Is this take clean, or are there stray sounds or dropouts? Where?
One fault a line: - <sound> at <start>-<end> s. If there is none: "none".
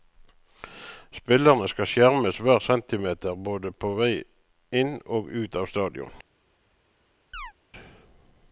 - chirp at 7.3-7.5 s